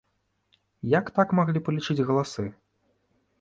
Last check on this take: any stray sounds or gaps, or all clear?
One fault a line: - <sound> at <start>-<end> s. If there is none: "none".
none